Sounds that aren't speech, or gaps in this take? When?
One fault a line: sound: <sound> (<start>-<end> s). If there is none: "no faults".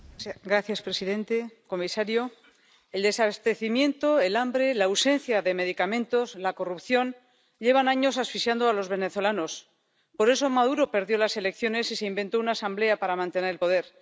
no faults